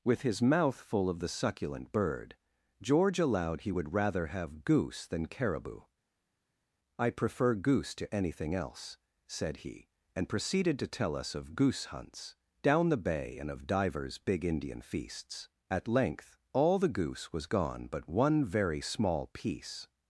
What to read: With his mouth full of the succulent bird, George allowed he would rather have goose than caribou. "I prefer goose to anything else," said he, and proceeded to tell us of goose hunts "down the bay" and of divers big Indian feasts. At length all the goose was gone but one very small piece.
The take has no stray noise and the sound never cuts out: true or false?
true